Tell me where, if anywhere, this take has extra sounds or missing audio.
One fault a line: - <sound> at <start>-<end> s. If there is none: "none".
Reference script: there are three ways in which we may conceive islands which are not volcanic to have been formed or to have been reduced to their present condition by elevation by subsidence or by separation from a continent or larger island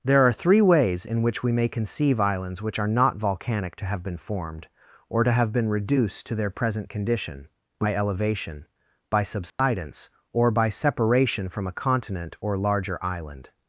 - dropout at 9.5-9.6 s